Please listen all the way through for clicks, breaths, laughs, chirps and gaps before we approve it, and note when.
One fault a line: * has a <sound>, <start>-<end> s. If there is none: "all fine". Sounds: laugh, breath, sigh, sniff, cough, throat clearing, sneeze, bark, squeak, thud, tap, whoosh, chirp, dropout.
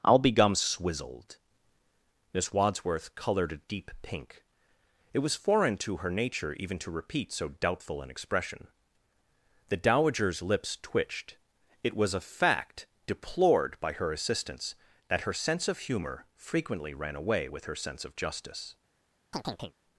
* has a chirp, 19.3-19.7 s